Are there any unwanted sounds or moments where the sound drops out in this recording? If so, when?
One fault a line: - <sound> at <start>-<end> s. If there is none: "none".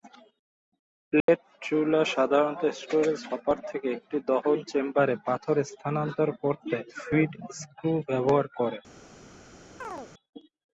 - dropout at 1.2-1.3 s
- chirp at 9.8-10.1 s